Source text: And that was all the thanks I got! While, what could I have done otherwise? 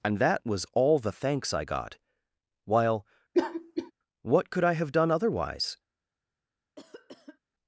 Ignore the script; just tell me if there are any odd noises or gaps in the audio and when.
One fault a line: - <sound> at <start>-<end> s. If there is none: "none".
- cough at 3.3-3.9 s
- cough at 6.8-7.4 s